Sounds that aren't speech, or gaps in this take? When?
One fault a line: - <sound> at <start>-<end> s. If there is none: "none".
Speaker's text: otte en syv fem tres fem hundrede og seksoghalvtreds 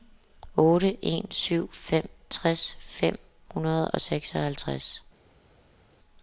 none